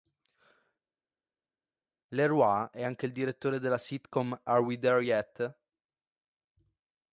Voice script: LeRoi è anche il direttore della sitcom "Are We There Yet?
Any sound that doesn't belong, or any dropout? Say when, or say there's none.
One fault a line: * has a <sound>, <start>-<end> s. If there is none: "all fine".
all fine